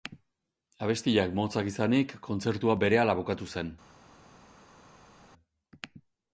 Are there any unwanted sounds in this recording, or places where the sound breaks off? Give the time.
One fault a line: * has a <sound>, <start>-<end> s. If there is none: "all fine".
all fine